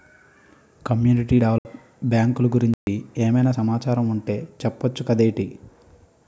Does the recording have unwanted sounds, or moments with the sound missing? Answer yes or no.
yes